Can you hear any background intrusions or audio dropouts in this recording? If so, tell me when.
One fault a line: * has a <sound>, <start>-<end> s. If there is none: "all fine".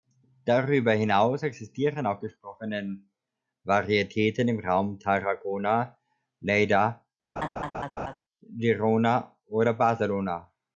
* has a laugh, 7.4-8.1 s